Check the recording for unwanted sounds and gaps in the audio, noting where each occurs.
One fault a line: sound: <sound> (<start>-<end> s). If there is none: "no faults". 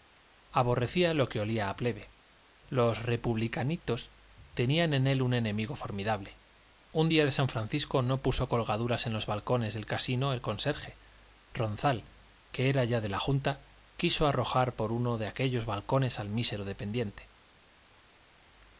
no faults